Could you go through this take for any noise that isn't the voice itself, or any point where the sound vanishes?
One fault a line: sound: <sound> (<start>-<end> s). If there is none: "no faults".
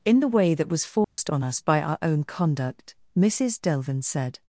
sound: dropout (1.0-1.2 s)